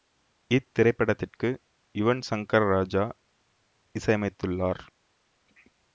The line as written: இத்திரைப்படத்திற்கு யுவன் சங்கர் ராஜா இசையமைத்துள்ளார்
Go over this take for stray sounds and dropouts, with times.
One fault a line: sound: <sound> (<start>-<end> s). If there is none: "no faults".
no faults